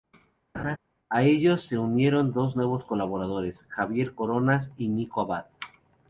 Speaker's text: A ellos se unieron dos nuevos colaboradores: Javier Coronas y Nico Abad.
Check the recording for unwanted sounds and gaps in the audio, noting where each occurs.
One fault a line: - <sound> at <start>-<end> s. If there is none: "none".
- laugh at 0.5-0.8 s